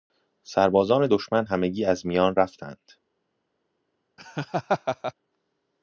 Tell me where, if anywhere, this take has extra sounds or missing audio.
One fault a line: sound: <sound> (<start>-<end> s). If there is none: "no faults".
sound: laugh (4.2-5.1 s)